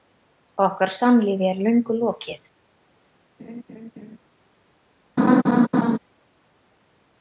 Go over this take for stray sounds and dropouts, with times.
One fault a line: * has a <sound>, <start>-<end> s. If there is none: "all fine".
* has a laugh, 3.4-4.2 s
* has a laugh, 5.2-6.0 s